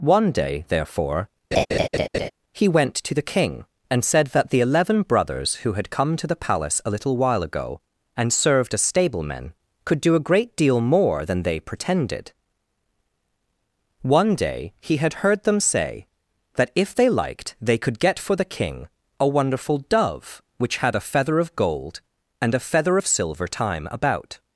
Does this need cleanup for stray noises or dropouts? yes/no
yes